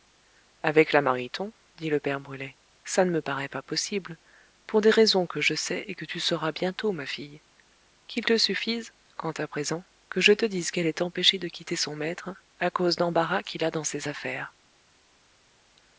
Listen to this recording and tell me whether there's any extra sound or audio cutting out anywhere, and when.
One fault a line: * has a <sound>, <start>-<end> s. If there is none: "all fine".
all fine